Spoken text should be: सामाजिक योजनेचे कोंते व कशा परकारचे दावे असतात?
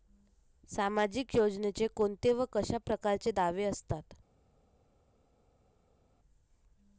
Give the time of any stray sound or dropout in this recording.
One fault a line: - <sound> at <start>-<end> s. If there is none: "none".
none